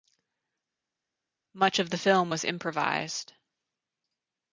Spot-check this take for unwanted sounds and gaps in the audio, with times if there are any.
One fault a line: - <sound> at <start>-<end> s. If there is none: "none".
none